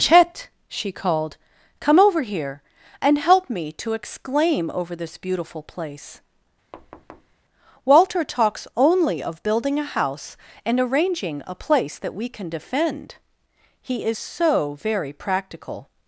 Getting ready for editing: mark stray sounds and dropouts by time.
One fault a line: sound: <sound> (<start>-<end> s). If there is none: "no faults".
sound: thud (6.7-7.4 s)